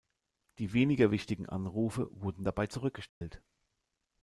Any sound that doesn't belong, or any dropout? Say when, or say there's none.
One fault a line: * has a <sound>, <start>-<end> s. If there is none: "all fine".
* has a dropout, 3.1-3.2 s